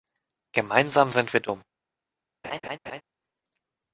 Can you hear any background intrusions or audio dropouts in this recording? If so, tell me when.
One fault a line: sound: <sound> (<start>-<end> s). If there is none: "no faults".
sound: laugh (2.4-3.0 s)